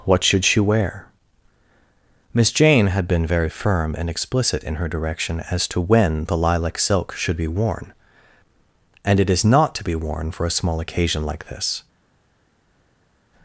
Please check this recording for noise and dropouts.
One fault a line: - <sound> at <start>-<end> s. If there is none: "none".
none